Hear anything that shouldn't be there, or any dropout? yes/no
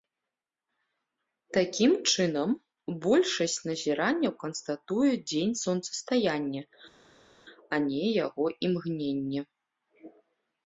no